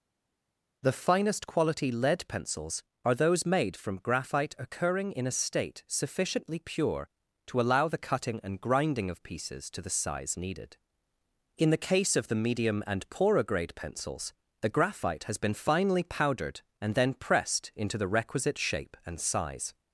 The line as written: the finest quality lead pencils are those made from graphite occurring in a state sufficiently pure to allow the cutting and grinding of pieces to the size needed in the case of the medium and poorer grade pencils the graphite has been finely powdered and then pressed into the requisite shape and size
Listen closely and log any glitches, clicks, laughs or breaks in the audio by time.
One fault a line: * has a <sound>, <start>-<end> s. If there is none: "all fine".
all fine